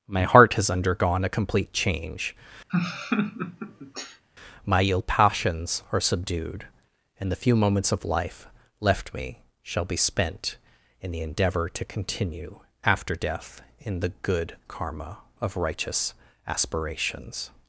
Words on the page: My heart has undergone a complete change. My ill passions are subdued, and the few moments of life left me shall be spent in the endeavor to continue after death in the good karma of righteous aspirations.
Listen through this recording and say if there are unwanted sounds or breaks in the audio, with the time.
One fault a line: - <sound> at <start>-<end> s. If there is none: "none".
- laugh at 2.7-4.2 s